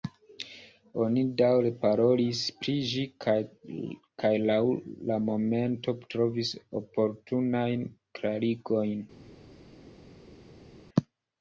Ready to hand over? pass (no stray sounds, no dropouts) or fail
pass